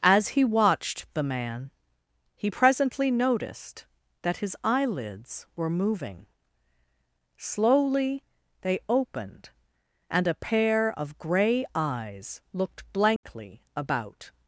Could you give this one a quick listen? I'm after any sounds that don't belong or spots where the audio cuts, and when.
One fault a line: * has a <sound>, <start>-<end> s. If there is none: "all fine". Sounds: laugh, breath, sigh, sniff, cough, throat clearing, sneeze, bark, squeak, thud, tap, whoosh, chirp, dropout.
* has a dropout, 13.2-13.2 s